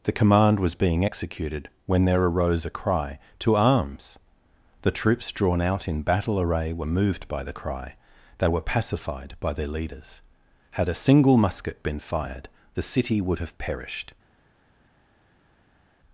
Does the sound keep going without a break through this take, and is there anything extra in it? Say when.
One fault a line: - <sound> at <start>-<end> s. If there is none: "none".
none